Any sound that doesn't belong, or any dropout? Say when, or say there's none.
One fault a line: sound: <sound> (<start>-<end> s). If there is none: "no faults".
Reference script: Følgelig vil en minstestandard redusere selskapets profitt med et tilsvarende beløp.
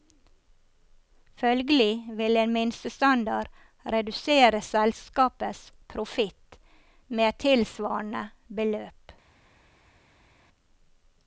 no faults